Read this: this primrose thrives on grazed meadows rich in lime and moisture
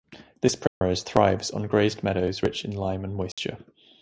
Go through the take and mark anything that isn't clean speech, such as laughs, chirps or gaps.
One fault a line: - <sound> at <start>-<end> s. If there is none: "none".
- dropout at 0.7-0.8 s
- dropout at 3.3-3.4 s